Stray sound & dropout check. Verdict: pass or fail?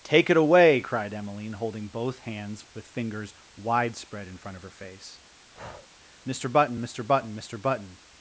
fail